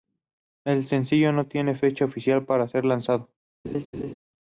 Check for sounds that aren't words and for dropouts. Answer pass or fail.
fail